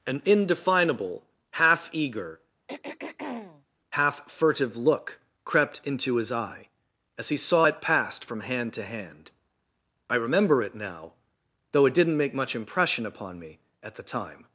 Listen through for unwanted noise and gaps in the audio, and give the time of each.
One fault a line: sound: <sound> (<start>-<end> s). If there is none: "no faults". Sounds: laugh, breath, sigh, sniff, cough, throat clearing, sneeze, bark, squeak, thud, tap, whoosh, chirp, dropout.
sound: throat clearing (2.7-3.6 s)